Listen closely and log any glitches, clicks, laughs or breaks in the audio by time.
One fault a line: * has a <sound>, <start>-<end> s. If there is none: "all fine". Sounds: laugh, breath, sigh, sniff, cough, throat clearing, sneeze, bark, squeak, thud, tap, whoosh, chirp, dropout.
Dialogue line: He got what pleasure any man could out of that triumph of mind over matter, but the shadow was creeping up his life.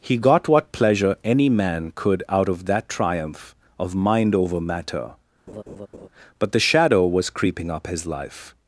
* has a laugh, 5.5-6.1 s